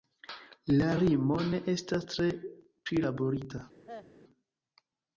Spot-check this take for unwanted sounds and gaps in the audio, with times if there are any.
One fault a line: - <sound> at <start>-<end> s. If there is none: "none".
- cough at 3.9-4.1 s